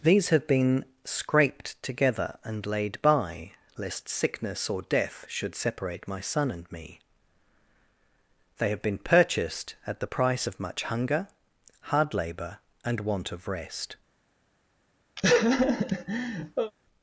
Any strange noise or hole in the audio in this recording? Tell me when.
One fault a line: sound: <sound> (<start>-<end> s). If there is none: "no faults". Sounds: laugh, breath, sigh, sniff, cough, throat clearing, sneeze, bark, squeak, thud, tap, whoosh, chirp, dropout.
sound: laugh (15.2-16.7 s)